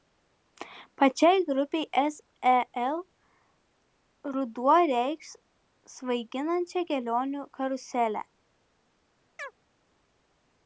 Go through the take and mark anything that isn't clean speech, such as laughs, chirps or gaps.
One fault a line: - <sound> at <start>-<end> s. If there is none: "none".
- chirp at 9.4-9.5 s